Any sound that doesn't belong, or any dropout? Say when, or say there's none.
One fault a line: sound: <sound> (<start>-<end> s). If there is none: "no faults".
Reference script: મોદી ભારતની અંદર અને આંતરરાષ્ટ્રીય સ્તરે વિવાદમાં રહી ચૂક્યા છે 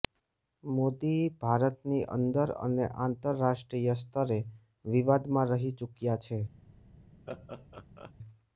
sound: laugh (7.3-8.1 s)